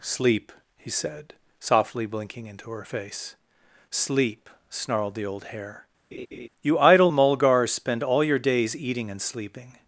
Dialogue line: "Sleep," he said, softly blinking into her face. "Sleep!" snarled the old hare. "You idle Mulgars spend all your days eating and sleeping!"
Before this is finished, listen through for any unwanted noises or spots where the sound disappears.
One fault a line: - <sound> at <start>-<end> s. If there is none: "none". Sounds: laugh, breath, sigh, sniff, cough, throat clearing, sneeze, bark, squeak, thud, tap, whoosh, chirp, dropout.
- laugh at 6.1-6.5 s